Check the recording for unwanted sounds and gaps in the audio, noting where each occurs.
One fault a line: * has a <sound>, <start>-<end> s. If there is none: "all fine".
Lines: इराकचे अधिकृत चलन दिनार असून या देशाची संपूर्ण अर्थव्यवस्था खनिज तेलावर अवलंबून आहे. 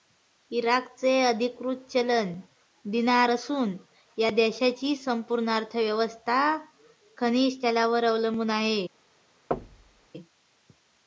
* has a thud, 9.5-10.1 s